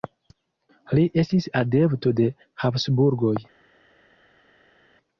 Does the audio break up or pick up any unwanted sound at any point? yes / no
no